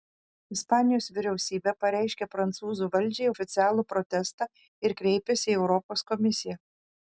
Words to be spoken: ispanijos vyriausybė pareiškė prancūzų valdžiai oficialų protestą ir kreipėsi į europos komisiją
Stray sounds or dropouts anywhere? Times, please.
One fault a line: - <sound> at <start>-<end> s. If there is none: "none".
none